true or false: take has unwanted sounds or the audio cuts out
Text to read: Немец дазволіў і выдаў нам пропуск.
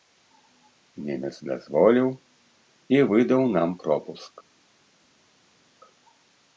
false